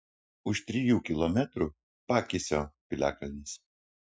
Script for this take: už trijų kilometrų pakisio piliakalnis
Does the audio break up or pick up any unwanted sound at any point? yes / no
no